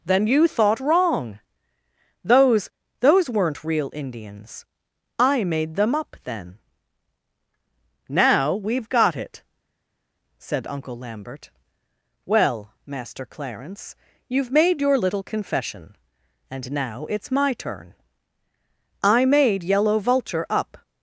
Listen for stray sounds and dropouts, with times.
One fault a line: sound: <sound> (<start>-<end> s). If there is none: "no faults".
no faults